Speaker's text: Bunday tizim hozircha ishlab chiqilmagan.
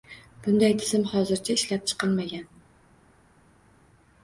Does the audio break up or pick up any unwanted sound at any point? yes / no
no